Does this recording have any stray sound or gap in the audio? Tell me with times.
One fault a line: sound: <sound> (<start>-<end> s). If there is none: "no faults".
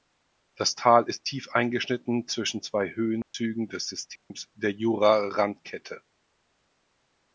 sound: dropout (3.2-3.3 s)
sound: dropout (4.2-4.3 s)